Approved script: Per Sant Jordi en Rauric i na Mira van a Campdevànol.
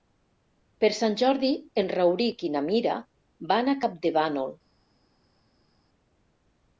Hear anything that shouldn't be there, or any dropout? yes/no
no